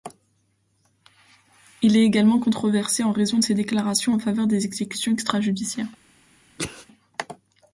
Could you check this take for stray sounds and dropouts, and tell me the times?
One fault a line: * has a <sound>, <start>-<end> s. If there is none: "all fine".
* has a sneeze, 6.6-6.9 s